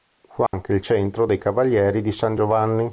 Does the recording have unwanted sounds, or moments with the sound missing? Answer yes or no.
yes